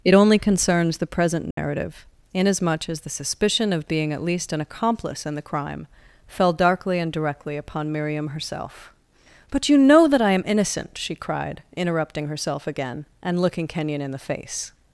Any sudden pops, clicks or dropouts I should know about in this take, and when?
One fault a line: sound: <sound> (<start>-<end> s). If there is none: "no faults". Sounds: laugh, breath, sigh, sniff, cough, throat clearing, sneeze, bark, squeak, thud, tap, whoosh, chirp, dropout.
sound: dropout (1.5-1.6 s)